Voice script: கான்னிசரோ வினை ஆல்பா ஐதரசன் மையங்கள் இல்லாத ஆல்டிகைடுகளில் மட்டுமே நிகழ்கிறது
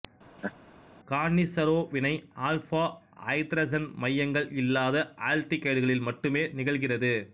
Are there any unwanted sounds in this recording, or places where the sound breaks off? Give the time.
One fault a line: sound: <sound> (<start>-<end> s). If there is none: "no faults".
sound: laugh (0.4-0.5 s)